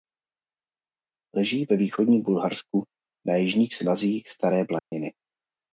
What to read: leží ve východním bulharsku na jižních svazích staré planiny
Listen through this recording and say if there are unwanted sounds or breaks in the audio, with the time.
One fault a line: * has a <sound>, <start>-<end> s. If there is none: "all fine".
* has a dropout, 4.8-4.9 s